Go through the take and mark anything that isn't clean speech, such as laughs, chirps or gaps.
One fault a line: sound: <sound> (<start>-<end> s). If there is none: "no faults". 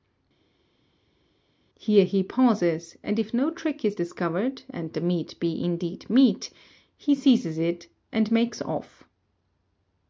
no faults